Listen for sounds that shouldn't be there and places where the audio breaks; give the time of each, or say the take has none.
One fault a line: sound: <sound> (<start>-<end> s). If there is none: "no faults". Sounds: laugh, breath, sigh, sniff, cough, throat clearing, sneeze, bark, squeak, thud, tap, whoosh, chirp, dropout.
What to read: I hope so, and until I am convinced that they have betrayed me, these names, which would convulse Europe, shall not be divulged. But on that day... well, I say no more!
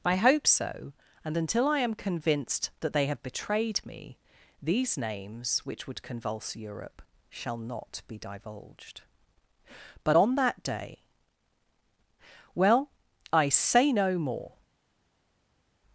no faults